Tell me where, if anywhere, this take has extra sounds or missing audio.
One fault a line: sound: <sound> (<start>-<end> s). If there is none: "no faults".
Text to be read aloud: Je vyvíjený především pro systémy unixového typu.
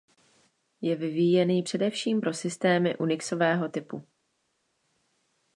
no faults